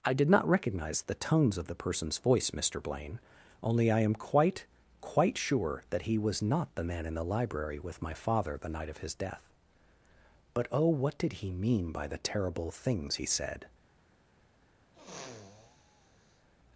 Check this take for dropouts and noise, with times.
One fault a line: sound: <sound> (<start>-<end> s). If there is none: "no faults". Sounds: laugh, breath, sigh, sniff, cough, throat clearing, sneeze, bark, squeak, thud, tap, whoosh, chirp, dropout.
sound: sniff (14.9-16.5 s)